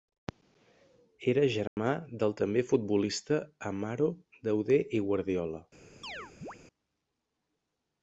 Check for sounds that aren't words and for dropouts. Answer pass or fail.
fail